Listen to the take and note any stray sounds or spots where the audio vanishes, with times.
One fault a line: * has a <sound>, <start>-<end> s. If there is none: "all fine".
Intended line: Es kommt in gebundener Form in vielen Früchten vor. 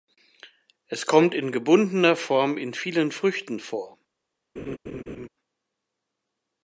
* has a laugh, 4.6-5.3 s